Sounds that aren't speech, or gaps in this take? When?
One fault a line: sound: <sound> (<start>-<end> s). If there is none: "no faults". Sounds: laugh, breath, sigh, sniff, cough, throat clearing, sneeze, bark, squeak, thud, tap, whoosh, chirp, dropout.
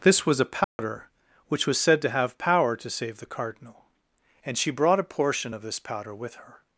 sound: dropout (0.6-0.8 s)